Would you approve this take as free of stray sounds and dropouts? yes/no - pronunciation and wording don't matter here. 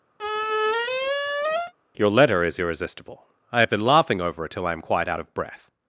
no